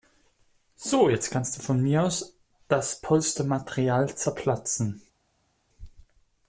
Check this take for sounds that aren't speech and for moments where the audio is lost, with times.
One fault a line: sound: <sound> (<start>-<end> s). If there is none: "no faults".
no faults